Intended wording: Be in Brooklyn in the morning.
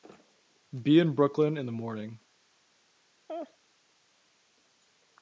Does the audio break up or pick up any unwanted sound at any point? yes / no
yes